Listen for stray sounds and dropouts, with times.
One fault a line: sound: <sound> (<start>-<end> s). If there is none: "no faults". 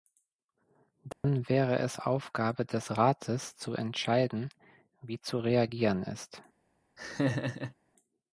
sound: dropout (1.1-1.2 s)
sound: laugh (7.0-7.7 s)